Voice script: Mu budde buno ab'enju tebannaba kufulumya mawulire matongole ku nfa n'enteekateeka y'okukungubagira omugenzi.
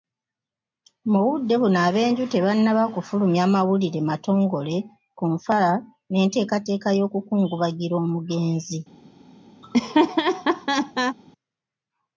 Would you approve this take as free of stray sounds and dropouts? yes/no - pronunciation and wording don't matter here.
no